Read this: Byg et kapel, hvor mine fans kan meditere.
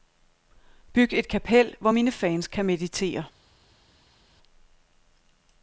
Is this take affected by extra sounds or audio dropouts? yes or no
no